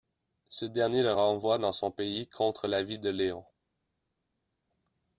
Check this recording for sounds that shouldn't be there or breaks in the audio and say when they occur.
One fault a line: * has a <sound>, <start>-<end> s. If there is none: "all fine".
all fine